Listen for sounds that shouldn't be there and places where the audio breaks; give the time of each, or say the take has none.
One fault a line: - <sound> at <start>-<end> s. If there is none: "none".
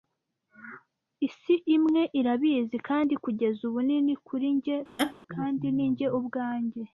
- laugh at 5.0-5.1 s